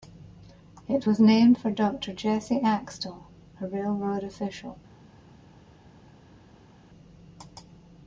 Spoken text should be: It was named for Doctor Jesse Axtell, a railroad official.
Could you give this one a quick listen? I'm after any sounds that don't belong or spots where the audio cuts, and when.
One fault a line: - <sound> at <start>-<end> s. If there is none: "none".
none